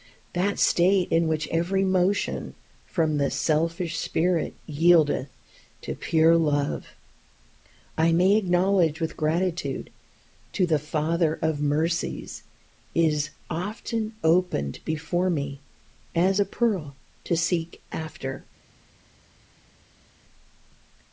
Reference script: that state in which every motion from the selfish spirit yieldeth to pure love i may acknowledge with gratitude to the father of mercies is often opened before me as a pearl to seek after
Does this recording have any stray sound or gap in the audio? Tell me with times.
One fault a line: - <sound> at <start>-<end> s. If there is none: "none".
none